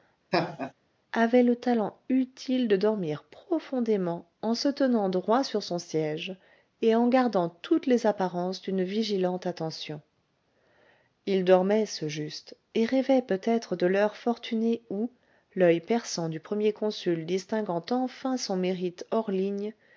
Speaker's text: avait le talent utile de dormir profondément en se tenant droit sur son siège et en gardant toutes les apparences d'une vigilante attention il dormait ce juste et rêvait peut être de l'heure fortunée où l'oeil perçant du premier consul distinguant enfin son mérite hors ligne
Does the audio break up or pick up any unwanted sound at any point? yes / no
yes